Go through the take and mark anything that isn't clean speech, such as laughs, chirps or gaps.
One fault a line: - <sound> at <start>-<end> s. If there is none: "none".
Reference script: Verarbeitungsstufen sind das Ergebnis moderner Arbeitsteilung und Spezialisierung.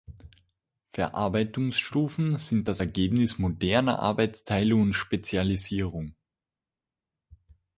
none